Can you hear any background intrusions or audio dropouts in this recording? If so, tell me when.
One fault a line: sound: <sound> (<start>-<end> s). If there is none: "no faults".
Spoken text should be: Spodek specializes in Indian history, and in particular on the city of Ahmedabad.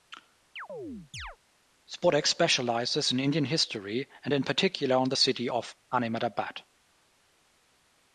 sound: chirp (0.6-1.4 s)